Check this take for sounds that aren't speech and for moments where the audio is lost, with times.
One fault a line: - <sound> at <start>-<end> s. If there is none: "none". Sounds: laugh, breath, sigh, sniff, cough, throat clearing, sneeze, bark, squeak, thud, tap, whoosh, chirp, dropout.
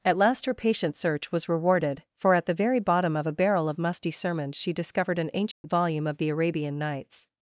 - dropout at 5.5-5.6 s